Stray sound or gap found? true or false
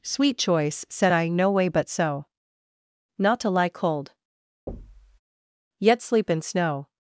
true